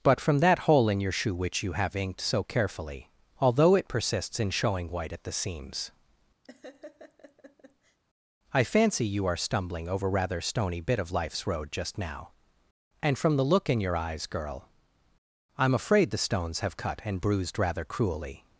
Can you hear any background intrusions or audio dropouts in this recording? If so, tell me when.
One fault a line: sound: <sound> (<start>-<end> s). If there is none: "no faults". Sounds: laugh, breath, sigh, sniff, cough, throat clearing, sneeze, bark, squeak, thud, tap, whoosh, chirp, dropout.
sound: laugh (6.4-8.0 s)